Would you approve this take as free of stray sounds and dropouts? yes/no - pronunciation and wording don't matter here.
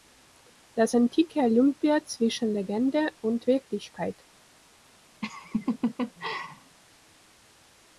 no